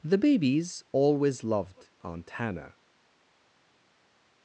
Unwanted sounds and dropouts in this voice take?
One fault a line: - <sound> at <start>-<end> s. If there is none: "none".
none